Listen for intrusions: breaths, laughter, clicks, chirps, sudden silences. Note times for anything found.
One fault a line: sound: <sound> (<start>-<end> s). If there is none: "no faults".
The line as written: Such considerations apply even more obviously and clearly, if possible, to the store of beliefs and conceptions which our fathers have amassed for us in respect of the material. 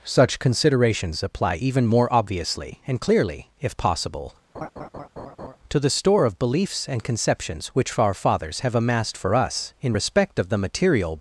sound: laugh (4.5-5.6 s)